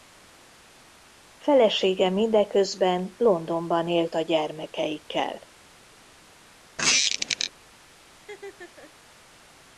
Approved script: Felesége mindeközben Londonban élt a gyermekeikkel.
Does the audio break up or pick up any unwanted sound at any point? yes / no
yes